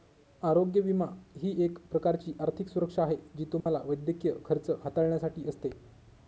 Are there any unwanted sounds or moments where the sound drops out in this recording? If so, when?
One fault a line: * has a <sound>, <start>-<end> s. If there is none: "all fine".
* has a dropout, 3.6-3.7 s